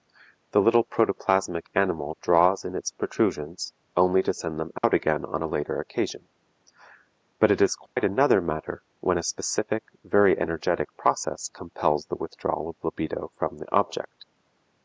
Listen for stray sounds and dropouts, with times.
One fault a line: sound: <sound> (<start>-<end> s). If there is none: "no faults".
sound: dropout (4.8-4.8 s)
sound: dropout (7.9-8.0 s)